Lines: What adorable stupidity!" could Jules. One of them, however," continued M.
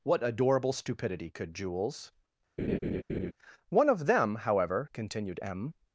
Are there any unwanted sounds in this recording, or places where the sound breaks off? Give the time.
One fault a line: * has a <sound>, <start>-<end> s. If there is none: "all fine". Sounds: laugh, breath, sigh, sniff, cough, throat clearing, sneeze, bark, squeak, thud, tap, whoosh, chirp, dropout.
* has a laugh, 2.6-3.3 s